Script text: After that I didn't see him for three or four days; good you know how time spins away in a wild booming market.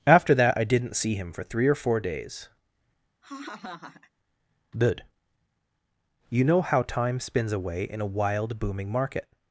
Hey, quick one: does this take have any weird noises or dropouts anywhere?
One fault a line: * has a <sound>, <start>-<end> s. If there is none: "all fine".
* has a laugh, 3.2-4.1 s